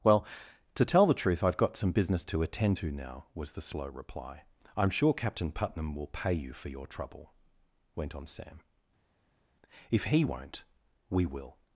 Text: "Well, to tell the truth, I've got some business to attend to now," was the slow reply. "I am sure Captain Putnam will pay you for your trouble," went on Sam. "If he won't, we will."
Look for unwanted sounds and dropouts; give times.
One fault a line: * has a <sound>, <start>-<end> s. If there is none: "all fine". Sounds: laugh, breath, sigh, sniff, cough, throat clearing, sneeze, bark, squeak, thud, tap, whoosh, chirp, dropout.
all fine